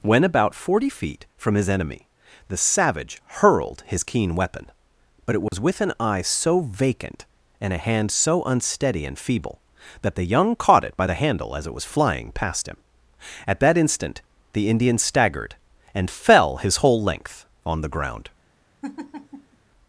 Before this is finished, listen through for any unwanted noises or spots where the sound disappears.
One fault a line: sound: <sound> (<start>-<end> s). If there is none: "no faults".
sound: dropout (5.5-5.5 s)
sound: laugh (18.8-19.6 s)